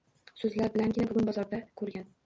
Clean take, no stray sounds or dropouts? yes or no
yes